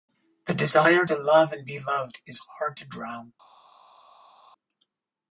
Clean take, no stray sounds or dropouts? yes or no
yes